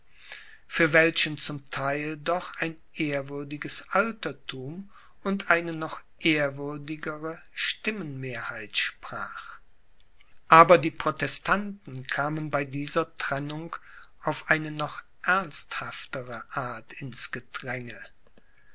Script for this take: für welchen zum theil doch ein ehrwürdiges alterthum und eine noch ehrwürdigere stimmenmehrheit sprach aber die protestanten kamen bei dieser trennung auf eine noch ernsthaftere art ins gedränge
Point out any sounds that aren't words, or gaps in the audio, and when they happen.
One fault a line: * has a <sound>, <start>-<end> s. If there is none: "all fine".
all fine